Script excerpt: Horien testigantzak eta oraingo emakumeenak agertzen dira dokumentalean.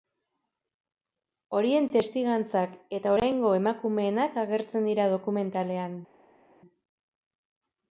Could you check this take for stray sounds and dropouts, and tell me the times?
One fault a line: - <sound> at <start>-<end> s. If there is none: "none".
none